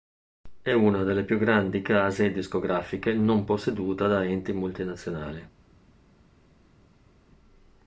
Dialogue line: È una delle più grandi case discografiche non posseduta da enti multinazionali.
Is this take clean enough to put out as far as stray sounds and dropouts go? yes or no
yes